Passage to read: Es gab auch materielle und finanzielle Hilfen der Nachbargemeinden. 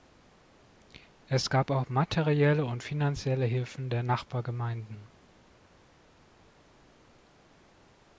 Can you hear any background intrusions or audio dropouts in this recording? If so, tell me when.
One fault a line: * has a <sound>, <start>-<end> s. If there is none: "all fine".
all fine